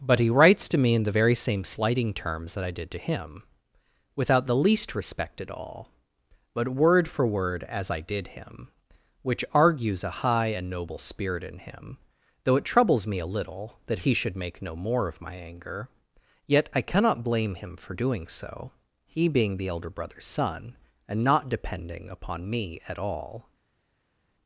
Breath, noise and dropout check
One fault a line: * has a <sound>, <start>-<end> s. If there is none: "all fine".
all fine